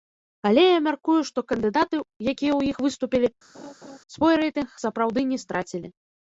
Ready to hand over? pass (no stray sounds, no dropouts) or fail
fail